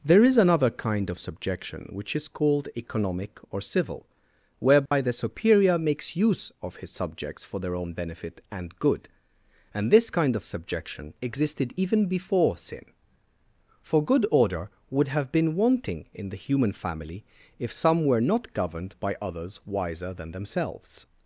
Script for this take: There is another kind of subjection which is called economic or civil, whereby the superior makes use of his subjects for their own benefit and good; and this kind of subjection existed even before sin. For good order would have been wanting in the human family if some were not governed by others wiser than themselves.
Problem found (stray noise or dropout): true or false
true